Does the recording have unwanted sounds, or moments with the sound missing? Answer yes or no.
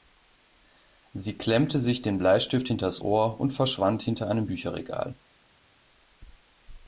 no